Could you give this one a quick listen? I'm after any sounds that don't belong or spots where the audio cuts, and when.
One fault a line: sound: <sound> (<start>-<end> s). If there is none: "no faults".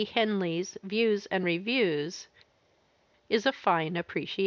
no faults